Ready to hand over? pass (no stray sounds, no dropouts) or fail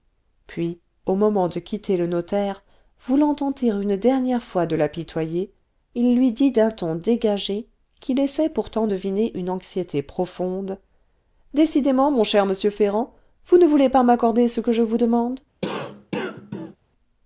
fail